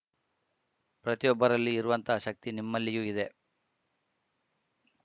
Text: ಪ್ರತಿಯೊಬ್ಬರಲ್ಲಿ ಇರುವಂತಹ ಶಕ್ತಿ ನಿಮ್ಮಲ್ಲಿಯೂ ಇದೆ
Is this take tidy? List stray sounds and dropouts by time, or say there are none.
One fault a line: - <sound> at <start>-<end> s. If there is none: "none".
none